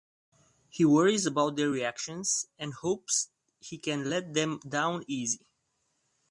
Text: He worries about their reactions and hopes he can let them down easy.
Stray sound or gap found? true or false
false